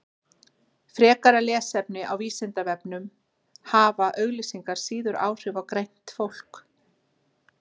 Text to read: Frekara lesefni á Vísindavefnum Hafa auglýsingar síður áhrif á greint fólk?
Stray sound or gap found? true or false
false